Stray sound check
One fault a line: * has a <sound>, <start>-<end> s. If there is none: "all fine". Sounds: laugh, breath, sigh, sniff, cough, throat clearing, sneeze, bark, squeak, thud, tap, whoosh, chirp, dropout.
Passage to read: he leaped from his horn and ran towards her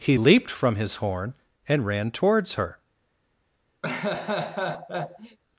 * has a laugh, 3.8-5.4 s